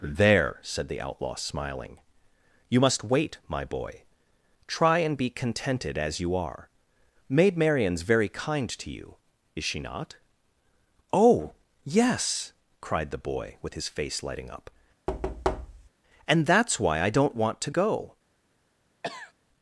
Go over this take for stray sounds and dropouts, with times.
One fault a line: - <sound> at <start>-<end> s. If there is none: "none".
- thud at 15.1-15.9 s
- cough at 19.0-19.3 s